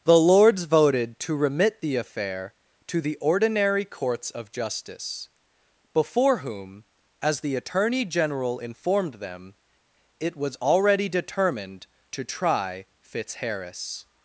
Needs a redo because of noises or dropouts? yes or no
no